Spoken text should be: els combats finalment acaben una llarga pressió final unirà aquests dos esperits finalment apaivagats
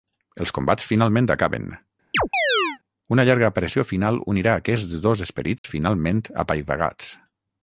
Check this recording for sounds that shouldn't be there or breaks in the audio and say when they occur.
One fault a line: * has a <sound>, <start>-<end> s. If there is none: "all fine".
* has a chirp, 2.1-2.8 s
* has a dropout, 5.6-5.6 s